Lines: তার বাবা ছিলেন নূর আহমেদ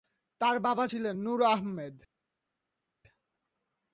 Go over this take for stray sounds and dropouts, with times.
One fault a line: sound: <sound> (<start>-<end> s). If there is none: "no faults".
no faults